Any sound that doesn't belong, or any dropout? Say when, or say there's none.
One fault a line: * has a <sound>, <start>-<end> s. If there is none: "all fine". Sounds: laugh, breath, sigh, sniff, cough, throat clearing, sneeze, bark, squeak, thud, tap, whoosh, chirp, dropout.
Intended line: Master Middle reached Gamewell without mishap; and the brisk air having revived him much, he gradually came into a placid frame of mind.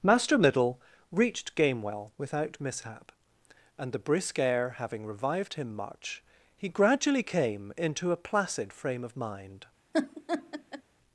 * has a laugh, 9.9-10.8 s